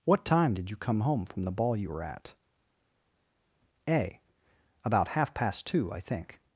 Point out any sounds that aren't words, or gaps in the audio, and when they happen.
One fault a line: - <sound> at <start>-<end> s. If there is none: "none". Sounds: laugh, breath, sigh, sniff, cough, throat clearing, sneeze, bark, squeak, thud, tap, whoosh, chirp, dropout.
none